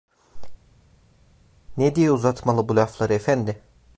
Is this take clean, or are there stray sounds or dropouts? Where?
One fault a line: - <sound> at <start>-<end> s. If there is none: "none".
none